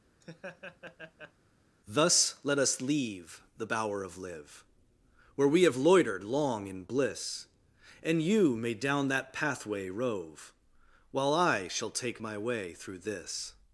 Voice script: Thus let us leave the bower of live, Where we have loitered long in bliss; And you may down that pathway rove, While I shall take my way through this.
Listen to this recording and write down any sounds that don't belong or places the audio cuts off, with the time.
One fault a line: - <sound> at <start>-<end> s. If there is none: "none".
- laugh at 0.2-1.3 s